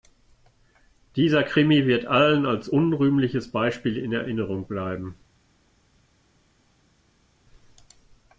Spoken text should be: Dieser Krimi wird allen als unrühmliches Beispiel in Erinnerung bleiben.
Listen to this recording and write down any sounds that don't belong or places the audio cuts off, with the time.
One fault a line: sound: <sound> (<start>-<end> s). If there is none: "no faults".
no faults